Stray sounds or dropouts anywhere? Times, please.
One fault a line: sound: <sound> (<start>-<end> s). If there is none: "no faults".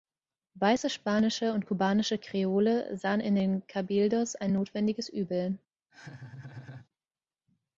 sound: laugh (5.9-6.9 s)